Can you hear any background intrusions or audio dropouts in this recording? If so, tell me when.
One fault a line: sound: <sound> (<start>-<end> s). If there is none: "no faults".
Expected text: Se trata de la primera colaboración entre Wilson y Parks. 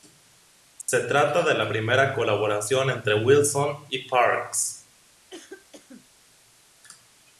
sound: dropout (0.8-0.9 s)
sound: cough (5.3-6.1 s)